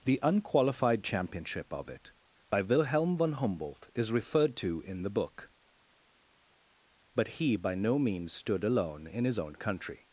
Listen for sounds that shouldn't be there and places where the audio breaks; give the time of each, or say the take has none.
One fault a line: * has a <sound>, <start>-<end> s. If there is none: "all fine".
all fine